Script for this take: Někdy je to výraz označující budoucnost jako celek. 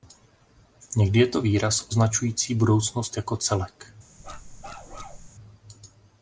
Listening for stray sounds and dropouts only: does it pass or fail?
fail